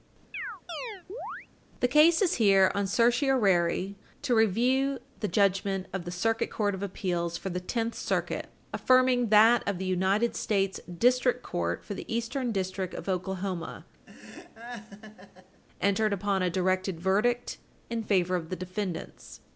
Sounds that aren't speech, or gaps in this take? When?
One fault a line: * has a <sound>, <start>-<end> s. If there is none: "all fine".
* has a chirp, 0.3-1.5 s
* has a laugh, 14.1-15.6 s